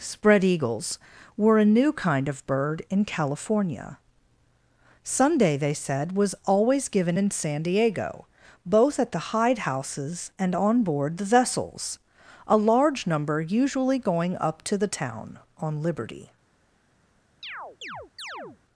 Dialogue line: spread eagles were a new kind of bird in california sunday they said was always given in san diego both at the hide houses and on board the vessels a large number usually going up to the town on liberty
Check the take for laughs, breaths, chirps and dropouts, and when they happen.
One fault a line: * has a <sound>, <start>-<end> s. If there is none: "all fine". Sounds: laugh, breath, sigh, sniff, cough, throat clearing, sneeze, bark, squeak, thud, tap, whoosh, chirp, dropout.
* has a chirp, 17.4-18.6 s